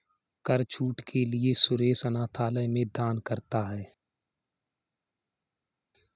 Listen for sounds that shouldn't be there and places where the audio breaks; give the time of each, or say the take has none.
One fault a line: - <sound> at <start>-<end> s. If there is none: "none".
none